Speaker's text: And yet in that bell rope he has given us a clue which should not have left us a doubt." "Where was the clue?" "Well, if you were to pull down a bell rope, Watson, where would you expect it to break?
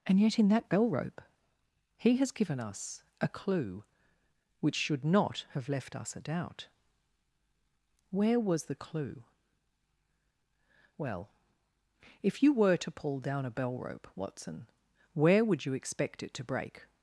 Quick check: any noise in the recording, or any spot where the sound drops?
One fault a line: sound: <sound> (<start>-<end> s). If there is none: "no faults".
no faults